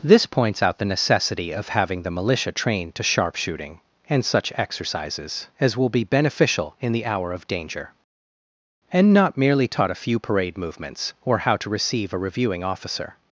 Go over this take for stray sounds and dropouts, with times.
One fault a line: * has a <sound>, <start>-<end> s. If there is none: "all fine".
all fine